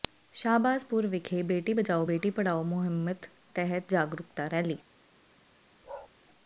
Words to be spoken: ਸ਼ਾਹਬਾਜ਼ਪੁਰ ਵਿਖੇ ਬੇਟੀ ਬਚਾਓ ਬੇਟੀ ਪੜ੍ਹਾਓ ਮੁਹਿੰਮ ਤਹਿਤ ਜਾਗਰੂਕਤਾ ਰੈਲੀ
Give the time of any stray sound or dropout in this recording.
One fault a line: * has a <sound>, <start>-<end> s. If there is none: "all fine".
* has a bark, 5.8-6.1 s